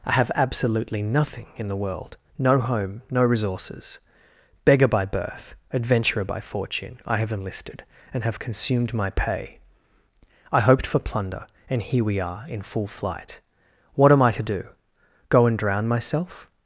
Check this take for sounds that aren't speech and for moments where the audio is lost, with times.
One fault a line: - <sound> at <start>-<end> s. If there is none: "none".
none